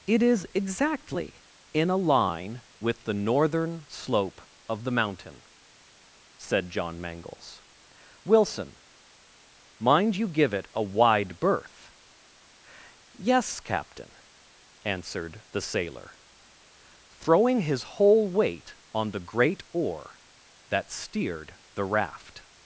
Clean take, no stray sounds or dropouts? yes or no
yes